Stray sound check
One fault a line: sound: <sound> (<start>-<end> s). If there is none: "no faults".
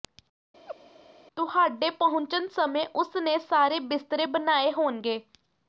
sound: laugh (0.7-0.8 s)